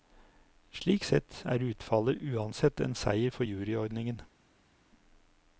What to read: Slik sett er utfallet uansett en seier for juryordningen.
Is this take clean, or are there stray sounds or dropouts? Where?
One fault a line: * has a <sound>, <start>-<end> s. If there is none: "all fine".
all fine